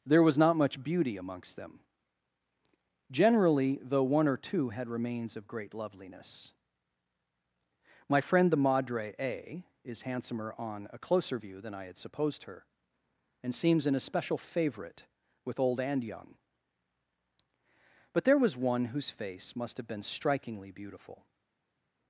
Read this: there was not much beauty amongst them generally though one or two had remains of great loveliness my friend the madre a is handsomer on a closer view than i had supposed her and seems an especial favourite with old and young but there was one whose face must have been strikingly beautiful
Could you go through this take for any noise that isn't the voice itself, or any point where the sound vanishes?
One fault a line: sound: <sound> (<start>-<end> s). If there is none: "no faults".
no faults